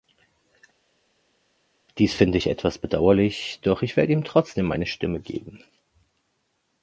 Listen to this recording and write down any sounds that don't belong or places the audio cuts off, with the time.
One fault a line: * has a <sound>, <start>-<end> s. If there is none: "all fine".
all fine